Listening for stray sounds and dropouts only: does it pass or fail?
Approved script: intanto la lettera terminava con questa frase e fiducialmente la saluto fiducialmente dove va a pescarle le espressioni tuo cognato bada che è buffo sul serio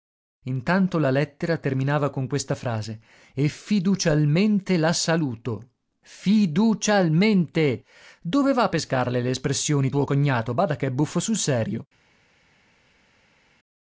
pass